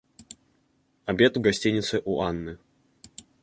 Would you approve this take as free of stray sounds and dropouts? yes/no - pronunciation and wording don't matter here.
yes